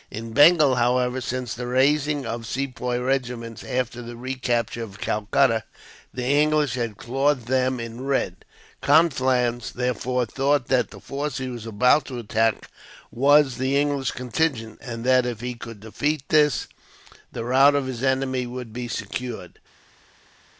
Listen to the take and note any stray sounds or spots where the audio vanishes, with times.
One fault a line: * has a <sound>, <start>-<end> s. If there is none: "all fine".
all fine